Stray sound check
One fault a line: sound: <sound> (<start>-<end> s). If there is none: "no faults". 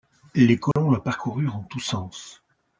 sound: dropout (0.7-0.8 s)